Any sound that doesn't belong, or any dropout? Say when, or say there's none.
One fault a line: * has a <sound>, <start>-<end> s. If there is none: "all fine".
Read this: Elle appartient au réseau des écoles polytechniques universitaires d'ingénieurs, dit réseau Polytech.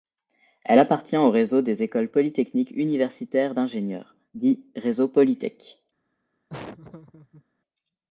* has a laugh, 6.5-7.4 s